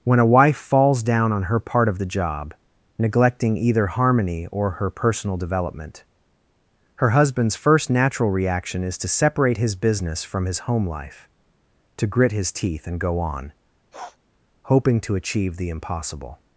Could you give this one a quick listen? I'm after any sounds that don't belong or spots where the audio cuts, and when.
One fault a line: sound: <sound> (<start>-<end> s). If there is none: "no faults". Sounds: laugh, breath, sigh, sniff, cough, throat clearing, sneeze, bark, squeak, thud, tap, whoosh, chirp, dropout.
sound: sniff (13.9-14.2 s)